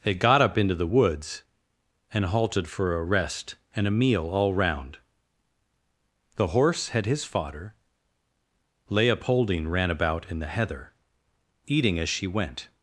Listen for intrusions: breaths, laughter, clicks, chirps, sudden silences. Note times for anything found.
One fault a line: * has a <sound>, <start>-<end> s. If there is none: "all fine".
all fine